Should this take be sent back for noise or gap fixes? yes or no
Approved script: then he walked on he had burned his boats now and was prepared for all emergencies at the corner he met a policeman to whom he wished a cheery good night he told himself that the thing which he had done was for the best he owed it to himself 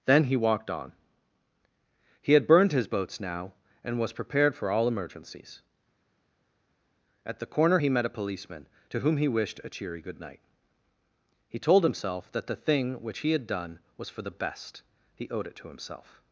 no